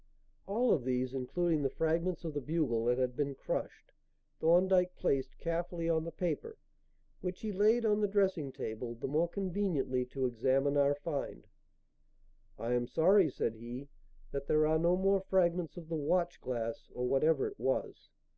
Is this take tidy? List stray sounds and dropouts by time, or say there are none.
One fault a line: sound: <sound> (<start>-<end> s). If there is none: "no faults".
no faults